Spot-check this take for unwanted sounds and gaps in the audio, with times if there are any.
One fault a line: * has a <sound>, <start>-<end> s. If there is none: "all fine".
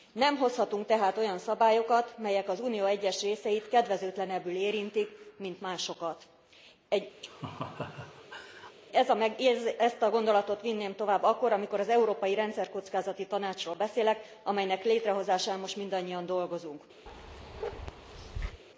* has a laugh, 7.2-8.8 s
* has a bark, 17.1-18.6 s